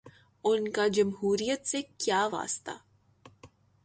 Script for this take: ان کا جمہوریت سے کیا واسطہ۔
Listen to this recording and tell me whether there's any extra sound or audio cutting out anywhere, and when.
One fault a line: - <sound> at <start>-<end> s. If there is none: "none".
none